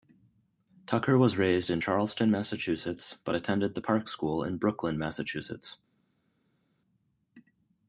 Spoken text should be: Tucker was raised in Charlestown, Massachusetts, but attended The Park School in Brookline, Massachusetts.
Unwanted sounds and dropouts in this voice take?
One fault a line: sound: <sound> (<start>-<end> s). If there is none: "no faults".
no faults